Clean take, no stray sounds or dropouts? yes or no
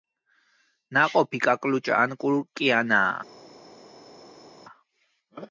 yes